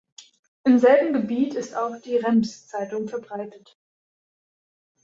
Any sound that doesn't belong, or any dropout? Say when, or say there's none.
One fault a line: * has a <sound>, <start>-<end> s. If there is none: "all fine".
all fine